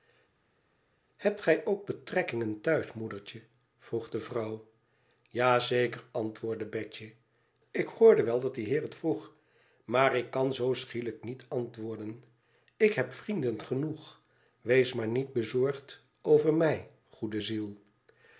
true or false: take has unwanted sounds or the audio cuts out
false